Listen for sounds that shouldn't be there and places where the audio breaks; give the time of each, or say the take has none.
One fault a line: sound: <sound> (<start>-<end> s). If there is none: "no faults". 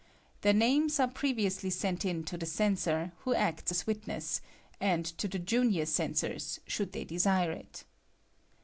no faults